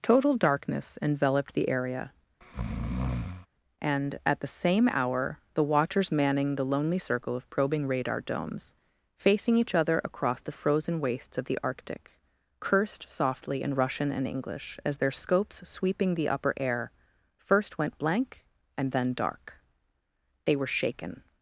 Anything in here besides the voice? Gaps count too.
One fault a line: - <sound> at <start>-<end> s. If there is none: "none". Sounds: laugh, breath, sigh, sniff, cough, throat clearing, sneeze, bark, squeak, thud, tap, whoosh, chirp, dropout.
- breath at 2.4-3.5 s